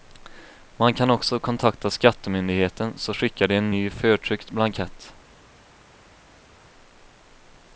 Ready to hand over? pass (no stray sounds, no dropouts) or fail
pass